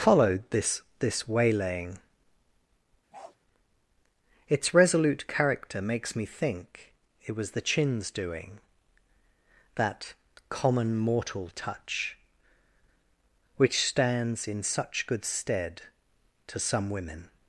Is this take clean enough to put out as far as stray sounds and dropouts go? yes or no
no